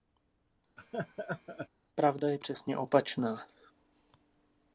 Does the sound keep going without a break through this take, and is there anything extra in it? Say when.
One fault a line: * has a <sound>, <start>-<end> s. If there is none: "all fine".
* has a laugh, 0.8-1.7 s